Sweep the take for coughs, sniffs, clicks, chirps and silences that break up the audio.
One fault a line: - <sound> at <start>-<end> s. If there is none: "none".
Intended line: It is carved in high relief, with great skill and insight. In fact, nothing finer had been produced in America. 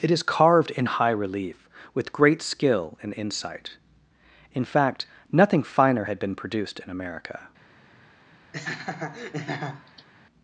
- laugh at 8.5-10.1 s